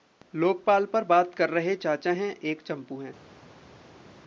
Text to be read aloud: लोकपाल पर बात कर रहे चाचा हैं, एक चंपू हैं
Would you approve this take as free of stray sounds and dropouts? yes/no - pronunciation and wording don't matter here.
yes